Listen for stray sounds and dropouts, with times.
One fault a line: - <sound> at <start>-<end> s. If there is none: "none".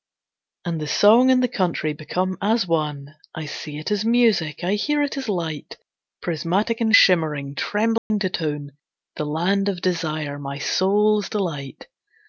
- dropout at 8.0-8.1 s